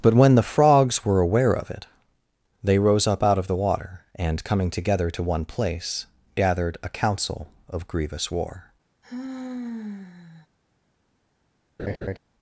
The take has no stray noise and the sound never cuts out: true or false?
false